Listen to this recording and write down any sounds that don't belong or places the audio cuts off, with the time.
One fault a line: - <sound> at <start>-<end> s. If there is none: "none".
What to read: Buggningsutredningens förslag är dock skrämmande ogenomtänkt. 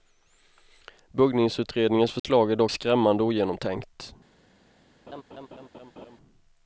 - dropout at 2.2-2.2 s
- laugh at 5.1-6.2 s